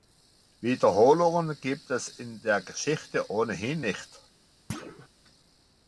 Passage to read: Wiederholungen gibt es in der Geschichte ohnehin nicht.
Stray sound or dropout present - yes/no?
yes